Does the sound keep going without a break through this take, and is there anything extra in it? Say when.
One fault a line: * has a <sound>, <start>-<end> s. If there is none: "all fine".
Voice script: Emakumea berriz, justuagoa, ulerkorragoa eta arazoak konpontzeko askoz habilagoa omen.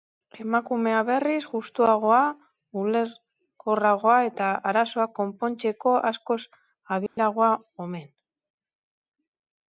* has a dropout, 7.1-7.2 s